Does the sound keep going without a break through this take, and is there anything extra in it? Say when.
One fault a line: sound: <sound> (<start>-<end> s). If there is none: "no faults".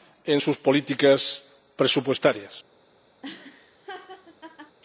sound: laugh (3.2-4.8 s)